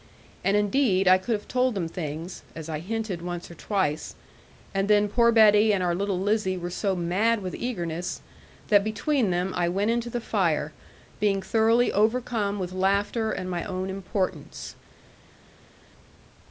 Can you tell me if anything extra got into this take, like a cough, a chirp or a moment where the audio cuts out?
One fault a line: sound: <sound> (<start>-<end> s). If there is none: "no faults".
no faults